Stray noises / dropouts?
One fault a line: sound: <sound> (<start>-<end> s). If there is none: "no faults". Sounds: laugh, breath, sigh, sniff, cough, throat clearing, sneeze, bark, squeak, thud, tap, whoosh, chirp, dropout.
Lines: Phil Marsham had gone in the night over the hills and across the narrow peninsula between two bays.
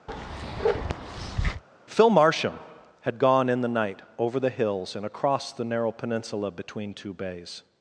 sound: bark (0.1-1.6 s)